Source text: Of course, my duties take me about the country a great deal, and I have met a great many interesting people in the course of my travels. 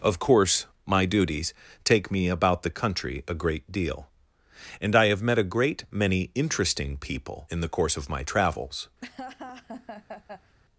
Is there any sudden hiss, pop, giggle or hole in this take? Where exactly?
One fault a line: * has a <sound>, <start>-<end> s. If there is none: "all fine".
* has a laugh, 9.0-10.6 s